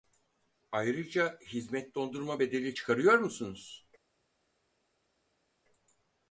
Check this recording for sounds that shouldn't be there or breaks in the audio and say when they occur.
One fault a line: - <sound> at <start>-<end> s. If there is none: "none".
none